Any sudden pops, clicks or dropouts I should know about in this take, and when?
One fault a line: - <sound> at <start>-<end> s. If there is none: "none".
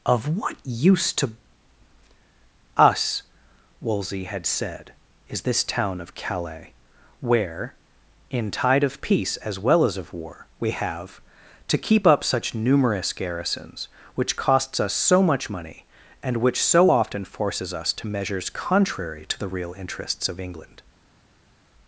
none